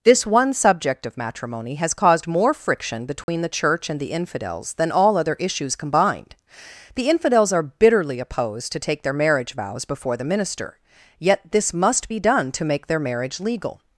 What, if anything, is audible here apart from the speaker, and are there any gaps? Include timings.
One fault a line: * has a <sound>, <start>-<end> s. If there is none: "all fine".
* has a dropout, 3.2-3.3 s